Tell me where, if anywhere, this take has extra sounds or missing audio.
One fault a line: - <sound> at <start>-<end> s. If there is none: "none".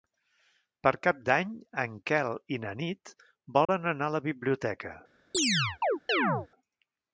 - dropout at 3.6-3.7 s
- chirp at 5.3-6.5 s